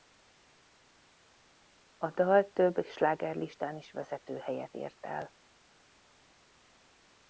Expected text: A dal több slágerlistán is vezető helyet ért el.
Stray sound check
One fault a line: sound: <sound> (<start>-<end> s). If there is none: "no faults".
no faults